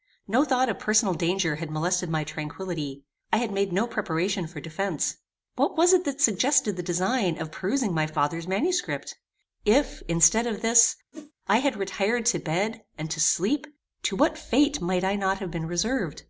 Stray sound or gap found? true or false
true